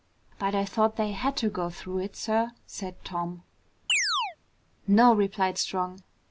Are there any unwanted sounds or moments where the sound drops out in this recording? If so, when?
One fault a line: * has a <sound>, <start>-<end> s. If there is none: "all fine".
* has a chirp, 3.9-4.4 s